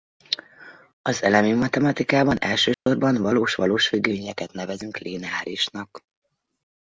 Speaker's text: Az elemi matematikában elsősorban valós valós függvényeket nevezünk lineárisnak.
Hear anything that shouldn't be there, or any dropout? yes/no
yes